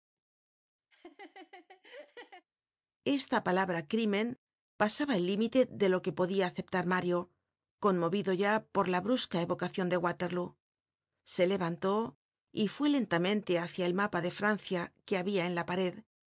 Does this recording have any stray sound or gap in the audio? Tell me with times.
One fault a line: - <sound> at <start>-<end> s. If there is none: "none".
- laugh at 0.9-2.5 s